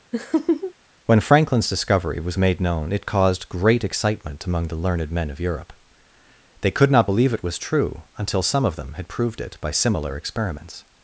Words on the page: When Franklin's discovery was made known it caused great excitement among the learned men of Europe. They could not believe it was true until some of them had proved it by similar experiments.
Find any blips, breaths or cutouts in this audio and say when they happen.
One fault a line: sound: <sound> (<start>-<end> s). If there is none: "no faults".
sound: laugh (0.1-0.7 s)